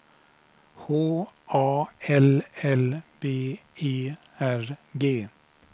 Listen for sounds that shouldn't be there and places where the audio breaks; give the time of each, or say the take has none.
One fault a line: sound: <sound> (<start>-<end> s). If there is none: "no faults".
no faults